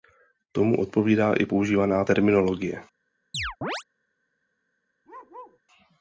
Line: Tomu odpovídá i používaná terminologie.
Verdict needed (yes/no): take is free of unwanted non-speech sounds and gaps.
no